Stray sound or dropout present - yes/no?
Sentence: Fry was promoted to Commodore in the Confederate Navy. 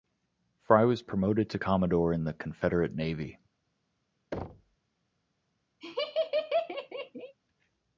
yes